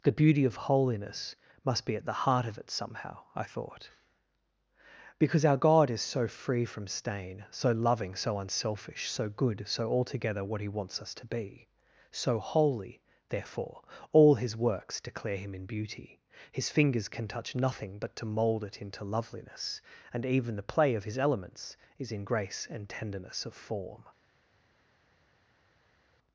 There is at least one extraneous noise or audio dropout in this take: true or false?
false